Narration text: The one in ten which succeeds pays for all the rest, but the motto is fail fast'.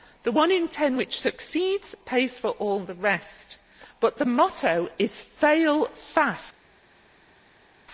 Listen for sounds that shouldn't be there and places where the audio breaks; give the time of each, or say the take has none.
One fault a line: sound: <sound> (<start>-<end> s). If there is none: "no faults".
no faults